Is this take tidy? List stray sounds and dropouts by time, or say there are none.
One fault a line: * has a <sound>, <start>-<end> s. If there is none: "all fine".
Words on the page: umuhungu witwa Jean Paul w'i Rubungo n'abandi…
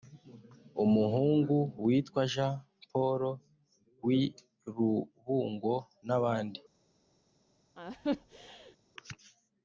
* has a laugh, 7.8-8.8 s